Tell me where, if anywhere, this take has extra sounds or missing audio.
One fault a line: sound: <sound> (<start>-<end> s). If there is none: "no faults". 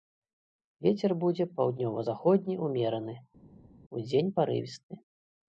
no faults